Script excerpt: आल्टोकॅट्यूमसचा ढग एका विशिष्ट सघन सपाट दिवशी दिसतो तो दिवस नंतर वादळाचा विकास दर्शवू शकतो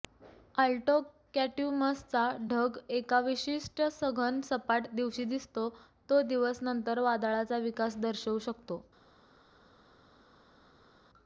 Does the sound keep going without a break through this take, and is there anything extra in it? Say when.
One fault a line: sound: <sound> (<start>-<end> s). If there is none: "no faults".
no faults